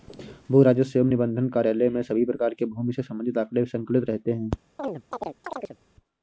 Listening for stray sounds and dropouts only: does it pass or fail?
fail